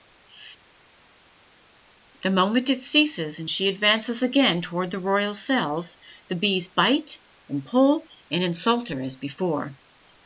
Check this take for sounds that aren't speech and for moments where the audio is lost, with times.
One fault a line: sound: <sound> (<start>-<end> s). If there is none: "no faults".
no faults